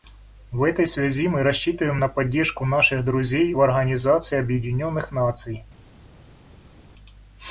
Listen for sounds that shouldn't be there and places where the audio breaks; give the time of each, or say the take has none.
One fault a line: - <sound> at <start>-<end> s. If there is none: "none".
none